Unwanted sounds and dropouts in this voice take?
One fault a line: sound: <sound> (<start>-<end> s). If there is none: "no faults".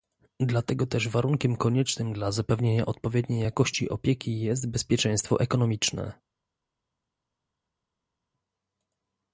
no faults